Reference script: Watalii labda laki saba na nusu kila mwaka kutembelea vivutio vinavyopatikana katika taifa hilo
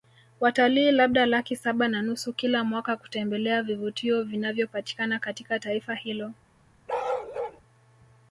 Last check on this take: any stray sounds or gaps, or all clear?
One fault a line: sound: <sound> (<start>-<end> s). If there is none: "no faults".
sound: bark (6.9-7.6 s)